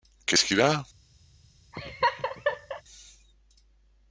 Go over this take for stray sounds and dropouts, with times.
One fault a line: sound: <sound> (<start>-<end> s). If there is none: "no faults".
sound: laugh (1.7-2.8 s)